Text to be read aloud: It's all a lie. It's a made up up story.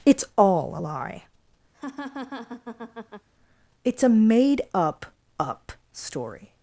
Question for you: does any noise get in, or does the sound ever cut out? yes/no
yes